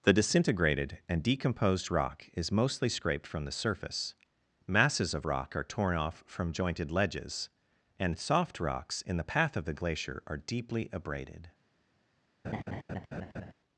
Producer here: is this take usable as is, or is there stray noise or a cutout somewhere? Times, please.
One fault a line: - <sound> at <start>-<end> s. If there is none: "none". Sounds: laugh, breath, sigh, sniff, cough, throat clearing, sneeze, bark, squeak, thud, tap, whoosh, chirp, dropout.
- laugh at 12.4-13.5 s